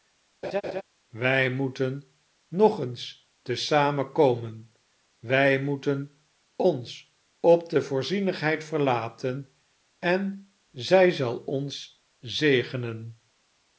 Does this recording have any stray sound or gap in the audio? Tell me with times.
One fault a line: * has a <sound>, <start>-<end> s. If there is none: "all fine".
* has a laugh, 0.4-0.8 s